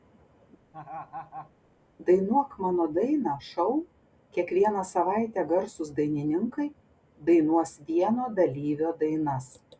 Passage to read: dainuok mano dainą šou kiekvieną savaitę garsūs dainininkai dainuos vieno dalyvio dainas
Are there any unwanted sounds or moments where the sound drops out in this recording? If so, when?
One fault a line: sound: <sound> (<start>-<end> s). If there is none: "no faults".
sound: laugh (0.7-1.5 s)